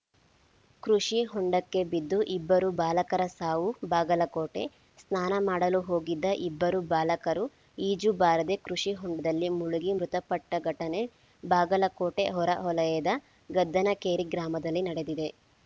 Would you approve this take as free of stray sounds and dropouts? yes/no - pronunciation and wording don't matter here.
yes